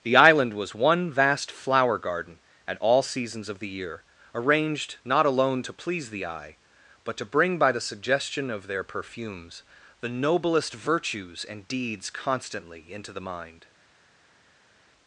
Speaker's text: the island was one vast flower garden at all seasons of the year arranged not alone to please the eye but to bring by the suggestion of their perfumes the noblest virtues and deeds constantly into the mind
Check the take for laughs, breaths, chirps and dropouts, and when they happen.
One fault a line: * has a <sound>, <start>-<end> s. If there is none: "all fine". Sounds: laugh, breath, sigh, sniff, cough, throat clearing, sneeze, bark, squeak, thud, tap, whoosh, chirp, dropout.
all fine